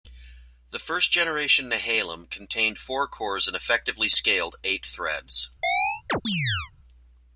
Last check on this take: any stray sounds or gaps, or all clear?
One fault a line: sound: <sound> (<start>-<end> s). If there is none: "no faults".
sound: chirp (5.6-6.7 s)